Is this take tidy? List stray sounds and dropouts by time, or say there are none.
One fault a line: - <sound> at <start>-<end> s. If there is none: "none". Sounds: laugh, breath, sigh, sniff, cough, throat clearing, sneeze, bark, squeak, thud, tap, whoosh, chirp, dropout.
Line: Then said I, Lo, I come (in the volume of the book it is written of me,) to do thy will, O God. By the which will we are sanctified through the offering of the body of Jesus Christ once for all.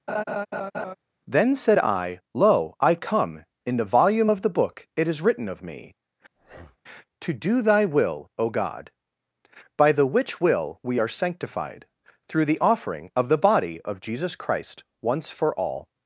- laugh at 0.1-0.9 s
- breath at 6.4-6.8 s